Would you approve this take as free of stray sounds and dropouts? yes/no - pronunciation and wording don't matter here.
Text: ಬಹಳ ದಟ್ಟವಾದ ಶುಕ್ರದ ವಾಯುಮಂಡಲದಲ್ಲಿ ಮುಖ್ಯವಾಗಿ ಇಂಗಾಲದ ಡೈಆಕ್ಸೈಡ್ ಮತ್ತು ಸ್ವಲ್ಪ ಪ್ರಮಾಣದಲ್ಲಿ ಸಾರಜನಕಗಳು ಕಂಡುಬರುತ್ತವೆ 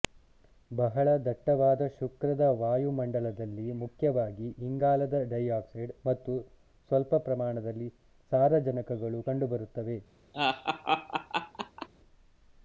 no